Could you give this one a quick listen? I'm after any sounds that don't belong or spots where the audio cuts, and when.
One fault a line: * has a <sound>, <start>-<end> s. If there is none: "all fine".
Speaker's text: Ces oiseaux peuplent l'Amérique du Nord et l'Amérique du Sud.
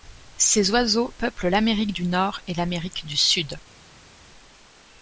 all fine